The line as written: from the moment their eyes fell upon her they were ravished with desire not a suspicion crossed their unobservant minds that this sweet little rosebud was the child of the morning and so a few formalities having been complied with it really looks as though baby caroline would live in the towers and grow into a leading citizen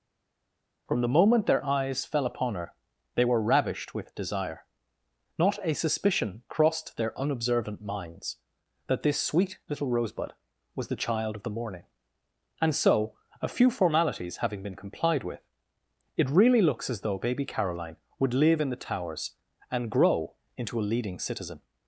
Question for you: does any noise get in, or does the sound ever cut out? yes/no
no